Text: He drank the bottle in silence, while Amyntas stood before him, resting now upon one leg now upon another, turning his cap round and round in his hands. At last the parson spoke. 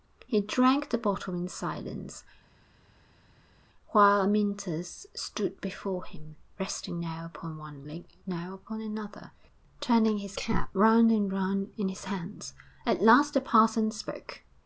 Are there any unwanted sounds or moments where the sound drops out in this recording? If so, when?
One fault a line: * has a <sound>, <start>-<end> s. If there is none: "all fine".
all fine